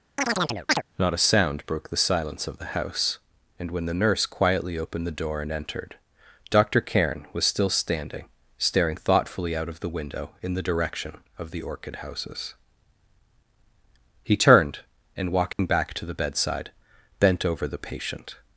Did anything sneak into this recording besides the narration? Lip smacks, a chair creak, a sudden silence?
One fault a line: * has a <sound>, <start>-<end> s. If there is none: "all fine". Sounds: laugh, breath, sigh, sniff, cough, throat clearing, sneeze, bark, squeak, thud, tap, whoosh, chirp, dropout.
* has a chirp, 0.2-0.8 s
* has a dropout, 15.5-15.6 s